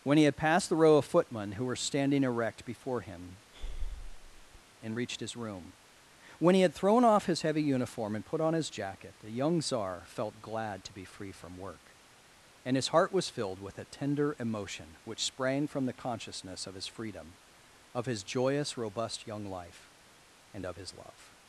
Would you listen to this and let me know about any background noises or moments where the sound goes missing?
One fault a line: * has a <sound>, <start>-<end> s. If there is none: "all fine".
* has a breath, 3.5-4.6 s